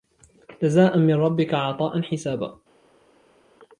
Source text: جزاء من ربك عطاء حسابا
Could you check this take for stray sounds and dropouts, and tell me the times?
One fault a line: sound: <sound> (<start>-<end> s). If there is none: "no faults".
no faults